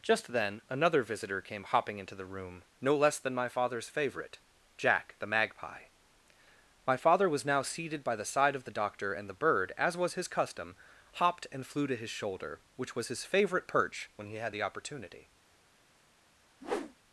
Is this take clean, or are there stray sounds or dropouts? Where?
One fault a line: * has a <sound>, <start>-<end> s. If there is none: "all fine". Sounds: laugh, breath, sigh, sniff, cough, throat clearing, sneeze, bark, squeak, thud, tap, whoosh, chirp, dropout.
* has a whoosh, 16.6-17.0 s